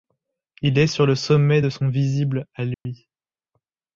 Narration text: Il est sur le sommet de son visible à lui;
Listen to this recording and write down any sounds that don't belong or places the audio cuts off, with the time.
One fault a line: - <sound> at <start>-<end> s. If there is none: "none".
- dropout at 2.7-2.9 s